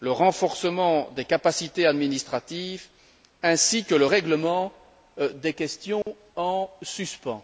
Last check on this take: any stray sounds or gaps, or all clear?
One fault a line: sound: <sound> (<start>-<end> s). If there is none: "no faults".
sound: dropout (6.0-6.1 s)